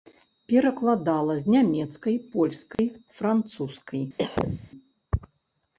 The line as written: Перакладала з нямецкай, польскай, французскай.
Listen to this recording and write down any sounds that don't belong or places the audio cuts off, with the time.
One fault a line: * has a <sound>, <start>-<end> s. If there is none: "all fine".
* has a dropout, 2.7-2.8 s
* has a cough, 4.2-4.7 s